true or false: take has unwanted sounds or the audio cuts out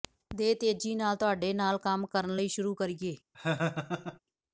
true